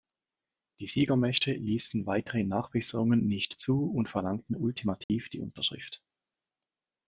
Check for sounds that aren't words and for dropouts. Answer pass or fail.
fail